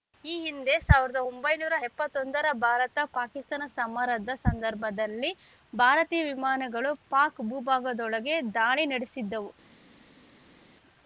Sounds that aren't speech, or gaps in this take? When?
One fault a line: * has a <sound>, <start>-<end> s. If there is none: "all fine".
all fine